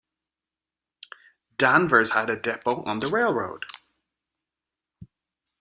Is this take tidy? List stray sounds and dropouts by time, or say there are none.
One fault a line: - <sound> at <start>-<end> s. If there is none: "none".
none